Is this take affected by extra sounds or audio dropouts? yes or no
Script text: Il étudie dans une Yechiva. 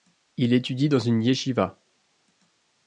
no